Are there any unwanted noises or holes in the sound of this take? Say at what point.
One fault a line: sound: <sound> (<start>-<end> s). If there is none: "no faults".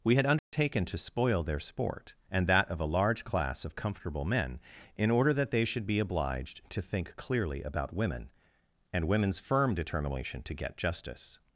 sound: dropout (0.4-0.5 s)